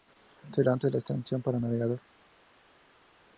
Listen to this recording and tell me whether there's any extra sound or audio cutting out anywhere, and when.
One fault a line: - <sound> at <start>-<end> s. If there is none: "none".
none